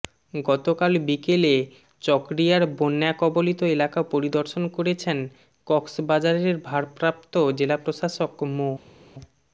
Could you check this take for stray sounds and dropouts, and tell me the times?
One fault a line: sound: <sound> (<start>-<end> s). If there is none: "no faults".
no faults